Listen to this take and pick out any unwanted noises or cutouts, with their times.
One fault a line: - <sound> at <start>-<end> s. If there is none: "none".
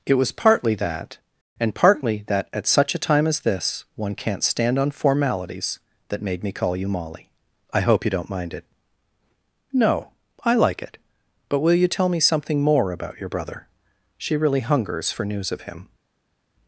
none